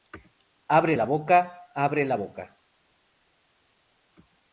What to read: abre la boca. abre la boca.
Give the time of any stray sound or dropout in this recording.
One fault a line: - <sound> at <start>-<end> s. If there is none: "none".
none